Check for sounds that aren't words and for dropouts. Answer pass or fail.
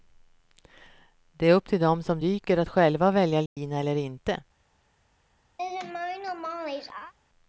fail